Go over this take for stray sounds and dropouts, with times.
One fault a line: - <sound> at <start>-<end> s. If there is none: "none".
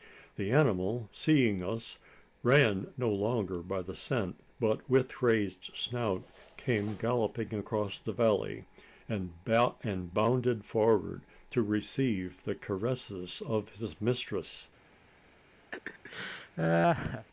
- laugh at 15.7-17.3 s